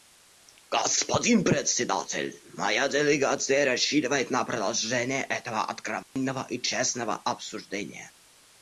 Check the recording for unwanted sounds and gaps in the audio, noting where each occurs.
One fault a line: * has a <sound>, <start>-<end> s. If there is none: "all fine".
* has a dropout, 6.0-6.2 s